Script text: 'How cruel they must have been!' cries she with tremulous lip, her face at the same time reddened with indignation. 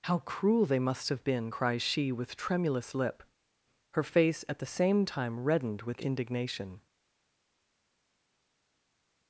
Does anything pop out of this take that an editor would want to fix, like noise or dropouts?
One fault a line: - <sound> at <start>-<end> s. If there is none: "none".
none